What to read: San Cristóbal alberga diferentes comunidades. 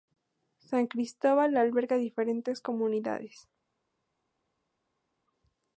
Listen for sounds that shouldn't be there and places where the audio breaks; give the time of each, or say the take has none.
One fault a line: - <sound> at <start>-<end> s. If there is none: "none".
none